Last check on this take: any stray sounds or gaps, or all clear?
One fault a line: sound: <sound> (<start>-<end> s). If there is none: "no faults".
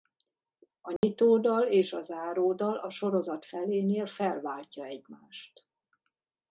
sound: dropout (1.0-1.0 s)